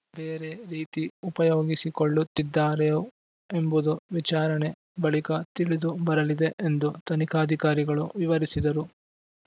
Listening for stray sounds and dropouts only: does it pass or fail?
pass